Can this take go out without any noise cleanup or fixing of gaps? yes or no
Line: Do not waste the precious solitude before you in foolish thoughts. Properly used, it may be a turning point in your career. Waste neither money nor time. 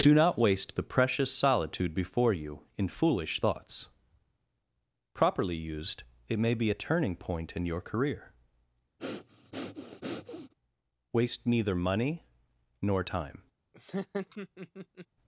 no